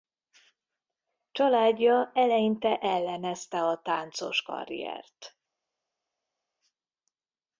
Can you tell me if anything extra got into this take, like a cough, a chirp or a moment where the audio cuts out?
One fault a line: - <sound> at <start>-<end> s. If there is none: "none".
none